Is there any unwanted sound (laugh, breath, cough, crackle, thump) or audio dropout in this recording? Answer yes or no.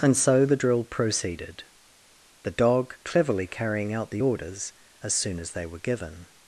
no